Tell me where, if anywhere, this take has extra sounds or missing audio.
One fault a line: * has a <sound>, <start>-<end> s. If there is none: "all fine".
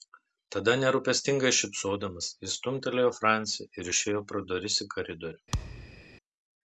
* has a thud, 5.5-6.0 s